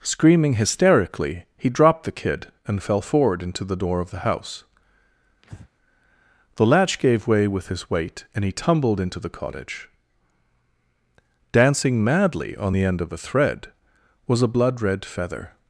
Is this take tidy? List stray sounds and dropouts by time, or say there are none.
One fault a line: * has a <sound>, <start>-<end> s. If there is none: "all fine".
* has a breath, 5.4-5.7 s